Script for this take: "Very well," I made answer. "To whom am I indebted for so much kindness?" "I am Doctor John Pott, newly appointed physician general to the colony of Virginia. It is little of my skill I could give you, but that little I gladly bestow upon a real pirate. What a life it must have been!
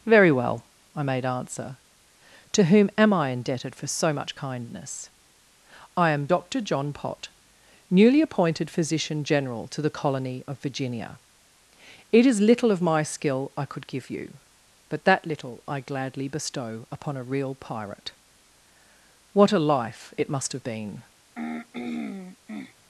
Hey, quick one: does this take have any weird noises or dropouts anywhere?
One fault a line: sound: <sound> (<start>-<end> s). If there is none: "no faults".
sound: throat clearing (21.4-22.7 s)